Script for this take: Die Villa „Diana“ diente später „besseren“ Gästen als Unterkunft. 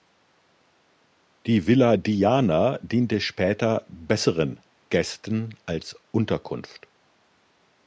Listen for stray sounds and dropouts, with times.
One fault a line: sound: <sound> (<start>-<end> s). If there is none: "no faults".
no faults